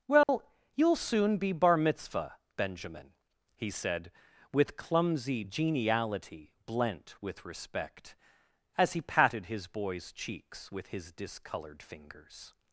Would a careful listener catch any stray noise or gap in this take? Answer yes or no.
yes